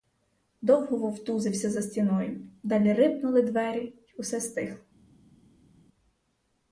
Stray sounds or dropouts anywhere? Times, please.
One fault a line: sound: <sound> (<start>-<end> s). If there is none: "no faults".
no faults